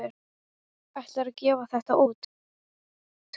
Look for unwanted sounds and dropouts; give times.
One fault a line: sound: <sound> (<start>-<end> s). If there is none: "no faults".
no faults